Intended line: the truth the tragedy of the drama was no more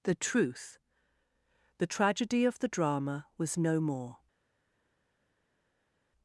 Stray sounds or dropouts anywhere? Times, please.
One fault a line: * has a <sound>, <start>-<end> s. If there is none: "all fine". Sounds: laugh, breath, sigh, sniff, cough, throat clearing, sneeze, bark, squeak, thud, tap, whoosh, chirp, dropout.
all fine